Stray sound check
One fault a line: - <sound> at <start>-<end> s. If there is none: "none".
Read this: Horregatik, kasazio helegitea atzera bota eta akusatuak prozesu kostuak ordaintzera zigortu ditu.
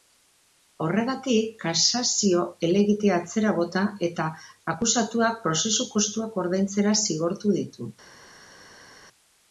none